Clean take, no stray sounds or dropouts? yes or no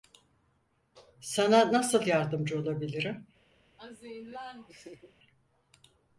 no